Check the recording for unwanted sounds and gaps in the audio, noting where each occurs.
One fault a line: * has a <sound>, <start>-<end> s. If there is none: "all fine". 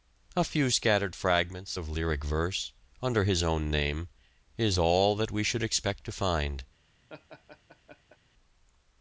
* has a laugh, 7.1-8.2 s